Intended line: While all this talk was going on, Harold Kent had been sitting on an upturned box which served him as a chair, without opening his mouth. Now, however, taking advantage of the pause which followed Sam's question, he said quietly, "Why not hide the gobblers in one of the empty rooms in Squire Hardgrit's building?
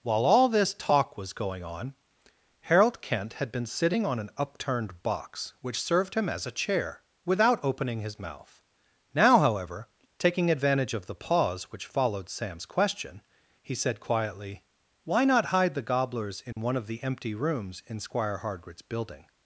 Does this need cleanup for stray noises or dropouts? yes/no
yes